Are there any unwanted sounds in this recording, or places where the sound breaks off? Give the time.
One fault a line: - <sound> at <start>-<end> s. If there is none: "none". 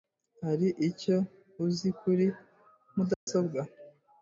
- dropout at 3.1-3.3 s